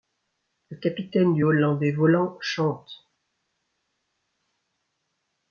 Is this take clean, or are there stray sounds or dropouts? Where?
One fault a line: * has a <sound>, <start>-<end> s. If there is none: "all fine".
all fine